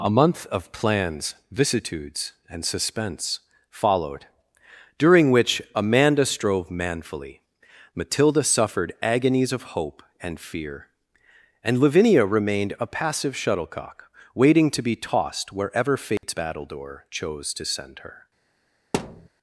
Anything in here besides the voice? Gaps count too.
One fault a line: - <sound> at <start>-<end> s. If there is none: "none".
- dropout at 16.2-16.2 s
- thud at 18.9-19.3 s